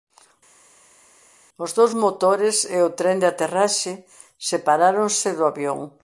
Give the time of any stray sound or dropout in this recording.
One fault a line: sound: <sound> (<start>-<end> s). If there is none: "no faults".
no faults